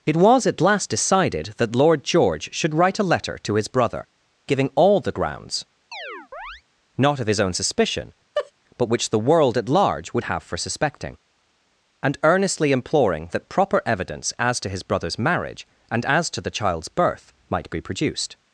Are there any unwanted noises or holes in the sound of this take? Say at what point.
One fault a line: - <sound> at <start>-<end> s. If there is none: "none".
- chirp at 5.9-6.6 s
- laugh at 8.4-8.5 s